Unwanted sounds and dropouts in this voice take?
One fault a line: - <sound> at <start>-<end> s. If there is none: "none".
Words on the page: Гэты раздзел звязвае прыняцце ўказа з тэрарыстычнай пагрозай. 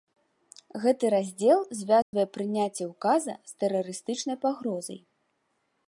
- dropout at 2.0-2.1 s